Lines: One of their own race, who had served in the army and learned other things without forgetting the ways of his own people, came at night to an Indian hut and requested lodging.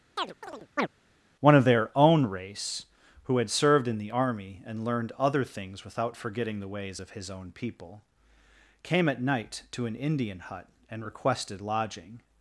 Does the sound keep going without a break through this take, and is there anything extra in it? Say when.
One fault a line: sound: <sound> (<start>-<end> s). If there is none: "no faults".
sound: chirp (0.2-0.9 s)